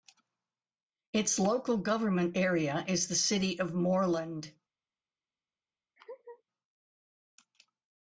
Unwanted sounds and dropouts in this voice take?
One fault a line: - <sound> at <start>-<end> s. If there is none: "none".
- laugh at 6.0-6.4 s